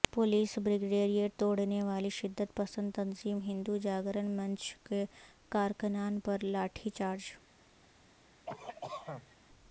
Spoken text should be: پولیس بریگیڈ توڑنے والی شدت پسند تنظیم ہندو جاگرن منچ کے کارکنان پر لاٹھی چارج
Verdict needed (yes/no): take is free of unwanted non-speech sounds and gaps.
no